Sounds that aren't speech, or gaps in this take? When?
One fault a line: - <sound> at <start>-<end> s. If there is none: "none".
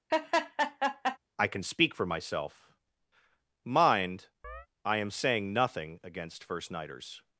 - laugh at 0.1-1.2 s
- chirp at 4.4-4.7 s